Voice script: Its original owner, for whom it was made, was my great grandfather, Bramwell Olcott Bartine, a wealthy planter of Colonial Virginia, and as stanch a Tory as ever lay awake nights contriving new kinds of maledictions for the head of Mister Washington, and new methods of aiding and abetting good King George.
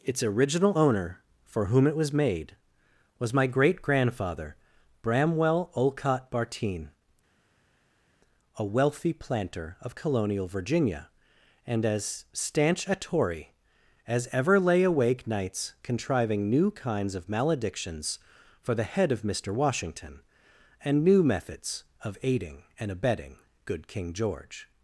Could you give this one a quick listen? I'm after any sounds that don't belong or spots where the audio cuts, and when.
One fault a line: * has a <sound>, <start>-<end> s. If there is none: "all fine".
all fine